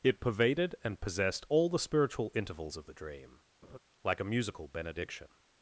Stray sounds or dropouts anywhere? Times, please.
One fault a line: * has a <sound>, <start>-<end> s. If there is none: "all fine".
* has a laugh, 3.6-3.8 s